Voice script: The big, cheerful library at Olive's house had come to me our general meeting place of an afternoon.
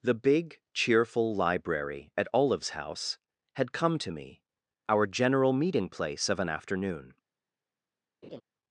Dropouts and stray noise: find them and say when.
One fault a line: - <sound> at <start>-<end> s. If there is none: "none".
- laugh at 8.2-8.4 s